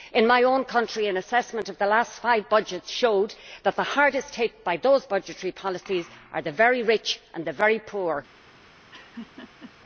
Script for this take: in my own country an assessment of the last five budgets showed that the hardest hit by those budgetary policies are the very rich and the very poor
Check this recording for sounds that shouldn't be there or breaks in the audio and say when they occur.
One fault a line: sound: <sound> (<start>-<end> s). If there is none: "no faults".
sound: laugh (8.9-9.7 s)